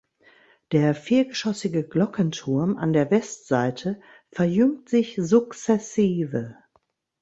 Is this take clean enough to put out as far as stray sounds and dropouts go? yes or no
yes